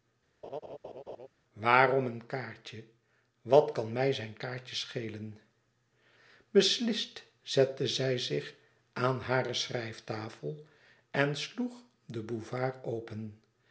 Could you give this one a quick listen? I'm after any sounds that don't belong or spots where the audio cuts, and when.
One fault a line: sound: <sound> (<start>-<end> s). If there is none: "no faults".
sound: laugh (0.4-1.3 s)